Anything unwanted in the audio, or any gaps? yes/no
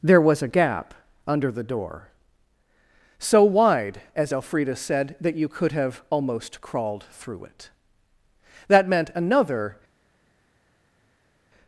no